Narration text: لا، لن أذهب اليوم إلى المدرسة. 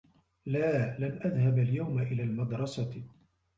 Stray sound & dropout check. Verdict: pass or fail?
pass